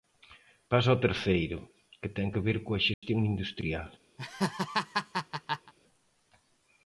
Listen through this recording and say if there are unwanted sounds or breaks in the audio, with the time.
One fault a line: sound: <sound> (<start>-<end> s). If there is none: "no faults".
sound: dropout (2.9-3.0 s)
sound: laugh (4.2-5.7 s)